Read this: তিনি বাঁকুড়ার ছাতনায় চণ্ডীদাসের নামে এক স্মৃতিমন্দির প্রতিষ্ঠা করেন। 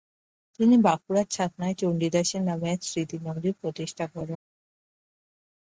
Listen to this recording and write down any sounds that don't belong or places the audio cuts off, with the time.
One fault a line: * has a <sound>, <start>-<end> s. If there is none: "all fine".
all fine